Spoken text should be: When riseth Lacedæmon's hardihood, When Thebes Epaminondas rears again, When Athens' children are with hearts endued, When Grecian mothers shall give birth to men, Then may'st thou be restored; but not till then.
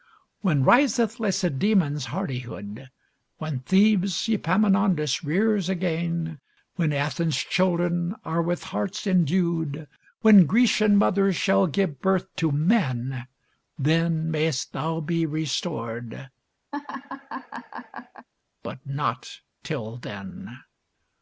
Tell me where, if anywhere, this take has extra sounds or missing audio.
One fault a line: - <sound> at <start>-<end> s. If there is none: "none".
- laugh at 16.7-18.3 s